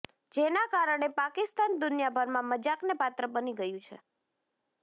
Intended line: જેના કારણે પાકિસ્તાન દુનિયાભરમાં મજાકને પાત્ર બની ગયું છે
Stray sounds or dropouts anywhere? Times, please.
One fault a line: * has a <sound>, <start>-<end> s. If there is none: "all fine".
all fine